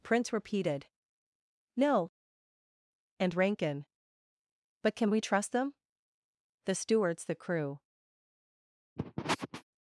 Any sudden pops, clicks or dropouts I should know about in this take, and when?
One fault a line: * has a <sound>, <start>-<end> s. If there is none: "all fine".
* has a sniff, 9.0-9.6 s